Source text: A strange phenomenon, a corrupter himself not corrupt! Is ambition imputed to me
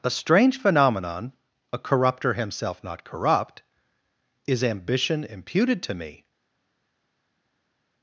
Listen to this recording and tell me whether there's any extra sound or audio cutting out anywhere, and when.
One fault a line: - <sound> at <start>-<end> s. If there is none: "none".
none